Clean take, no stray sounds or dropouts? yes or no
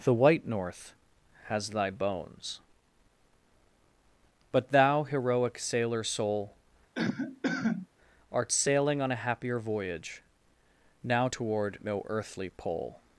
no